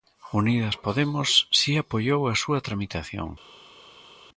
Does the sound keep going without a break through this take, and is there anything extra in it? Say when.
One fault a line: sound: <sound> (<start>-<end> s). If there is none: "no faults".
no faults